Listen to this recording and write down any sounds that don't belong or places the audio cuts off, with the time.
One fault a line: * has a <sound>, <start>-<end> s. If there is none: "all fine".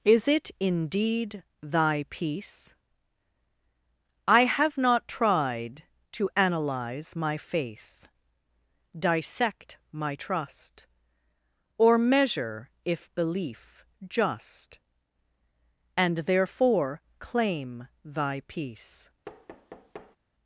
* has a thud, 19.2-20.2 s